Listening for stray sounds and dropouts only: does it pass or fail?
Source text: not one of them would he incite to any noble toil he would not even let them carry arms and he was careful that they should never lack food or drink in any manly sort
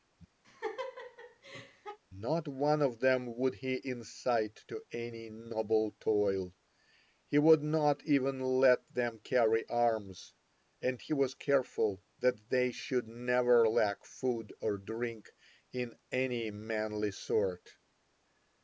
fail